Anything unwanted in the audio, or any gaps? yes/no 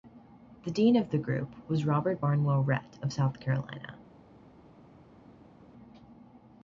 no